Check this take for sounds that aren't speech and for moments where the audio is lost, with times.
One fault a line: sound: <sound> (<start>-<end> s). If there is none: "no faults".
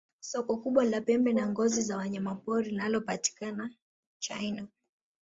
no faults